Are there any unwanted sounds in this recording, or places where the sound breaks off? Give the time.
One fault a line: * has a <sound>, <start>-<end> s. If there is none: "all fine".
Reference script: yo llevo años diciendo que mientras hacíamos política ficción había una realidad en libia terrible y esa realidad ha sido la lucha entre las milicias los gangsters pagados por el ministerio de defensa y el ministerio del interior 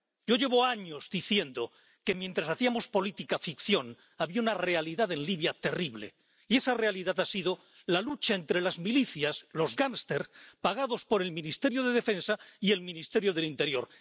all fine